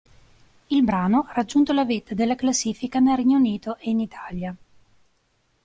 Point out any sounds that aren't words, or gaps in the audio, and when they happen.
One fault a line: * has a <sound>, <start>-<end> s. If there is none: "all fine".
all fine